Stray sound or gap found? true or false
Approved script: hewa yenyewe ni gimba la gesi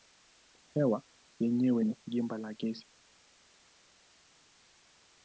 false